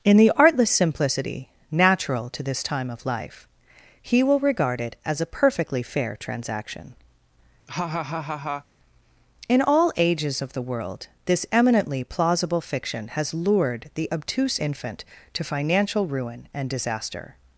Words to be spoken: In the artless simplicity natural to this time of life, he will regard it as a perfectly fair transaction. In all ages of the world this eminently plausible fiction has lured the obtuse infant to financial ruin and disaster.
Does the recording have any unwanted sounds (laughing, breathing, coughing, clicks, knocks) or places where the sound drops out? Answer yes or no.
yes